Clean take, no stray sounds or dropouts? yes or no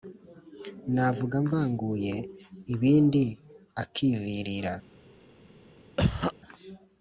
no